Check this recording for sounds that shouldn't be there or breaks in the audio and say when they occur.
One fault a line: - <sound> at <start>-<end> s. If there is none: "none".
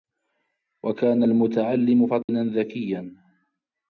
- dropout at 2.2-2.3 s